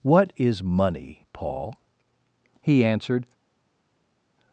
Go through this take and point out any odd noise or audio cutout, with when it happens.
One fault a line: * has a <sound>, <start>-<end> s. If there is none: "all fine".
all fine